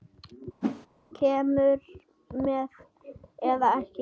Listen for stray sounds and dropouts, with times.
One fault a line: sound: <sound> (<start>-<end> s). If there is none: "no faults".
sound: whoosh (0.6-0.9 s)